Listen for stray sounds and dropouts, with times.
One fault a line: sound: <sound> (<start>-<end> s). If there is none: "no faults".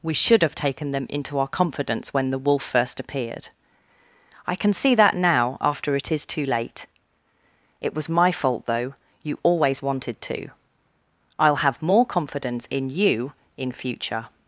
no faults